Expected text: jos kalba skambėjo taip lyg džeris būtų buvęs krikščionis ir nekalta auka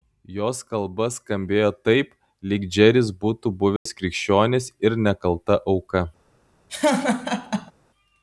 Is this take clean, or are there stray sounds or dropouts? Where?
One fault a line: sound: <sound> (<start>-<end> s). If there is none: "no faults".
sound: dropout (3.8-3.9 s)
sound: laugh (6.7-7.7 s)